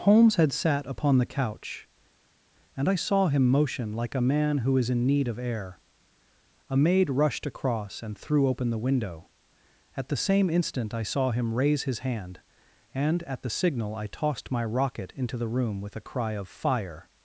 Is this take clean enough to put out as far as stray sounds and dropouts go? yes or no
yes